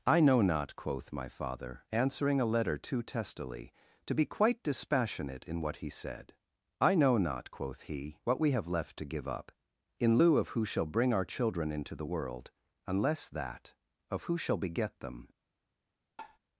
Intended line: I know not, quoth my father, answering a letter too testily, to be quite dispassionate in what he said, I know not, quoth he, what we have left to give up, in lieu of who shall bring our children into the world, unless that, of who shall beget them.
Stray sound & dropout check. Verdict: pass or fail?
fail